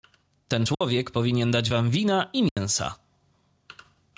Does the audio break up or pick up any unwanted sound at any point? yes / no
yes